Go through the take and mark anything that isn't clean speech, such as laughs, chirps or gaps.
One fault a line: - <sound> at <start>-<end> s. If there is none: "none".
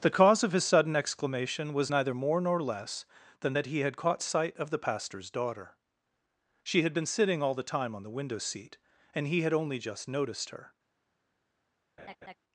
- laugh at 12.0-12.4 s